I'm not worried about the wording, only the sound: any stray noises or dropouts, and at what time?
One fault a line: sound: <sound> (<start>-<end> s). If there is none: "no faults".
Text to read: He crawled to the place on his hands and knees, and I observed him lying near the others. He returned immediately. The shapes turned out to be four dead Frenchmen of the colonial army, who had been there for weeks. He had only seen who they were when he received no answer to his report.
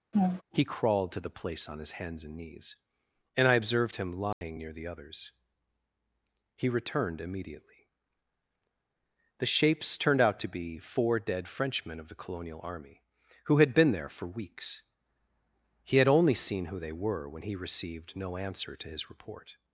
sound: laugh (0.1-0.4 s)
sound: dropout (4.3-4.4 s)